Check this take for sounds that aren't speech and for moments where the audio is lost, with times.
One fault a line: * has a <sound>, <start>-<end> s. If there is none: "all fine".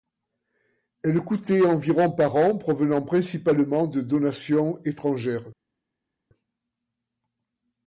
all fine